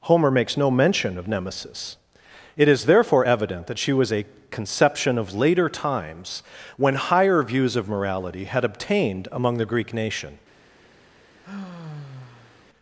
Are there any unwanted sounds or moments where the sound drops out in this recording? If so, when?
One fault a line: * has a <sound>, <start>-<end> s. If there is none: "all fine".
* has a sigh, 11.4-12.6 s